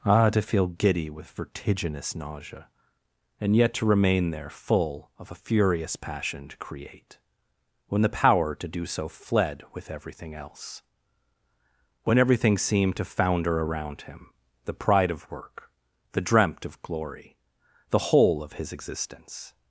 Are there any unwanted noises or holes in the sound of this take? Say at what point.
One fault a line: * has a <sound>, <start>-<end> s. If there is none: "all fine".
all fine